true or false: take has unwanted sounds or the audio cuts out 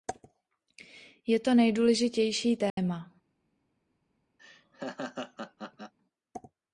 true